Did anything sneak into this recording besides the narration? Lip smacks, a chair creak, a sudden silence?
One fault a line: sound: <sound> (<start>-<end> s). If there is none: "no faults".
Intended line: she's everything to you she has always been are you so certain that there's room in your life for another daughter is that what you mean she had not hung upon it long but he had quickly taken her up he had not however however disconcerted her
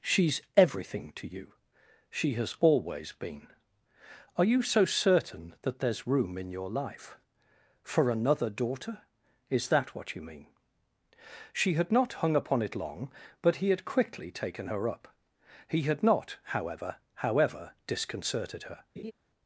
sound: laugh (19.0-19.1 s)